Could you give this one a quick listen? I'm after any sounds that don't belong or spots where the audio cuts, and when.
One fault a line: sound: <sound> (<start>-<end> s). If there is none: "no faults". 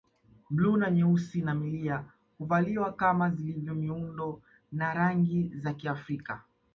no faults